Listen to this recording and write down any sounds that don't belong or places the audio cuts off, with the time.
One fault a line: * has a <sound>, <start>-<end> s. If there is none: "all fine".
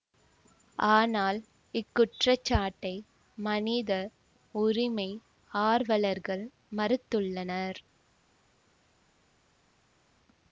all fine